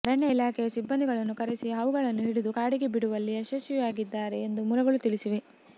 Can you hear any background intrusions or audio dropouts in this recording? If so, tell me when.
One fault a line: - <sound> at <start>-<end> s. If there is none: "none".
none